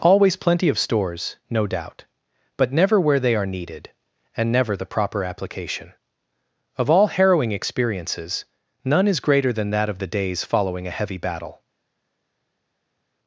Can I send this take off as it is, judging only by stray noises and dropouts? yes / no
yes